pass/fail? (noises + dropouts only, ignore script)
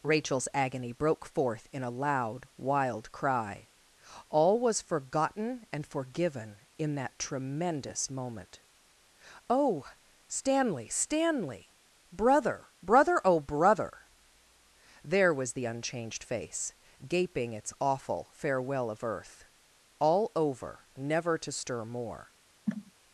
fail